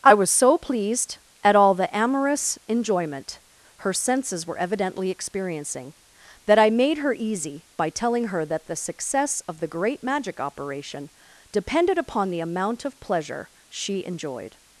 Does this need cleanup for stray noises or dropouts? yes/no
no